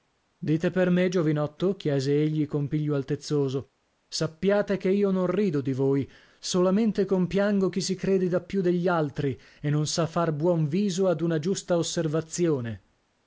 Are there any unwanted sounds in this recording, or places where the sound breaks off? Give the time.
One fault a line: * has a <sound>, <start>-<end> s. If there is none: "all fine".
all fine